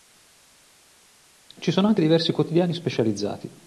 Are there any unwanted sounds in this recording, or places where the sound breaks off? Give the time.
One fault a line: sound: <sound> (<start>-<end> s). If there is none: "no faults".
no faults